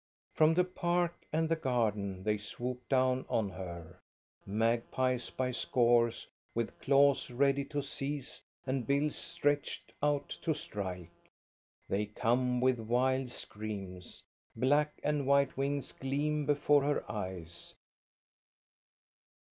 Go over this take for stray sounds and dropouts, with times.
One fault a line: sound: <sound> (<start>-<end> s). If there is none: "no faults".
no faults